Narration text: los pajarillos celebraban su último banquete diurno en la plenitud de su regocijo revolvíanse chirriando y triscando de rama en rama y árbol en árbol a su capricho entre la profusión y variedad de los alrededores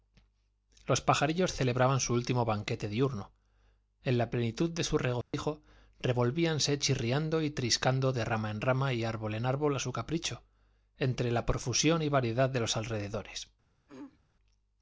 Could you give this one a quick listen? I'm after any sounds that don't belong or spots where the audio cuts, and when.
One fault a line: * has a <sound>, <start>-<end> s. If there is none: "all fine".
* has a dropout, 5.2-5.3 s
* has a throat clearing, 13.9-14.2 s